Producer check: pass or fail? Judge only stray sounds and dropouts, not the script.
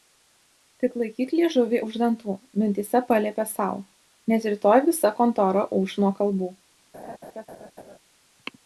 fail